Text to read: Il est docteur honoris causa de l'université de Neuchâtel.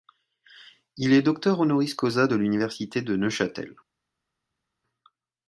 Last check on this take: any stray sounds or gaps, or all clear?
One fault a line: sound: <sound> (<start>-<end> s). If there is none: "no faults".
no faults